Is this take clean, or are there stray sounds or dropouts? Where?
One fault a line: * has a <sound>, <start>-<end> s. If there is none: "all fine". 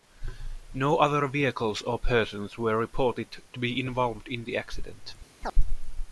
* has a chirp, 5.4-5.6 s